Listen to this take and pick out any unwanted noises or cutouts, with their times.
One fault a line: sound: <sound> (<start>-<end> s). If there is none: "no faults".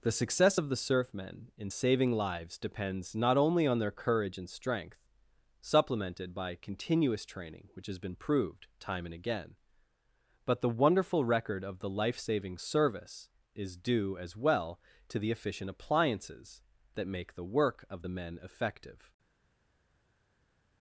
no faults